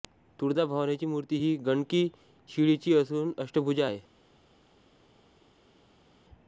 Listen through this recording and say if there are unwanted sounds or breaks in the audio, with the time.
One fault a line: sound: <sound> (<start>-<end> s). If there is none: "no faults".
no faults